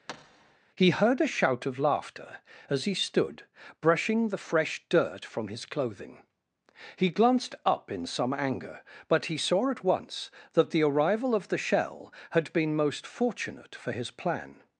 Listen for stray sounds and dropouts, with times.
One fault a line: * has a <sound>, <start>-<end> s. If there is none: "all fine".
* has a thud, 0.1-0.6 s